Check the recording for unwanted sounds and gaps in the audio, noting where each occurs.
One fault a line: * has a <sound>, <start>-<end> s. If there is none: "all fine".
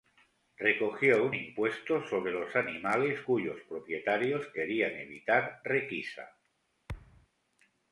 * has a thud, 6.9-7.3 s